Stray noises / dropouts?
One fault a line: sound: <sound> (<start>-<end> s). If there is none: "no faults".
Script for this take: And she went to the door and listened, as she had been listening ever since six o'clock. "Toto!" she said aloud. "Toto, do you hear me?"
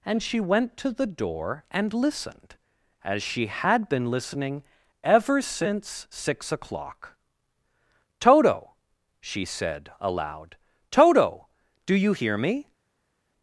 no faults